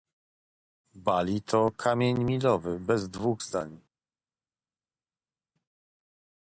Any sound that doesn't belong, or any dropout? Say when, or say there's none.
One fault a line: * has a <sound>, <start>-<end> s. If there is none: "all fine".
all fine